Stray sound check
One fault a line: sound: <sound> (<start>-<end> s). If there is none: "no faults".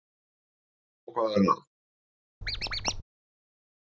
sound: squeak (2.4-3.0 s)